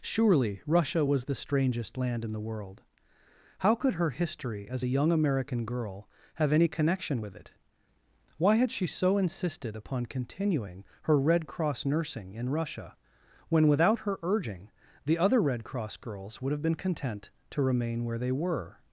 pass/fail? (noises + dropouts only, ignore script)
pass